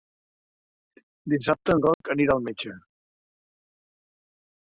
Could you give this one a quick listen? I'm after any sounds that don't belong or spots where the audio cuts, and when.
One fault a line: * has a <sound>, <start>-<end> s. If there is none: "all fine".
* has a dropout, 1.9-2.0 s